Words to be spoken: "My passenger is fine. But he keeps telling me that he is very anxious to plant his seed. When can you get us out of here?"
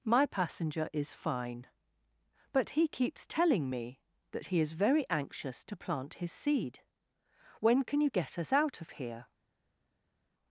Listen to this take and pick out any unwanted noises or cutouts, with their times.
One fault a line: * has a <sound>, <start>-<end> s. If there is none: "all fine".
all fine